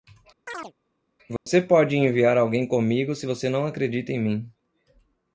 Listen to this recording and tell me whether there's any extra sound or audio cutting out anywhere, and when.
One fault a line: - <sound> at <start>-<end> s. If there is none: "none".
- chirp at 0.5-0.7 s
- dropout at 1.4-1.5 s